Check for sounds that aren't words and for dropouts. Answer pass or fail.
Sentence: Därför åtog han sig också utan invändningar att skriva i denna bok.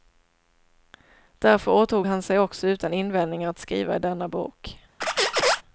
fail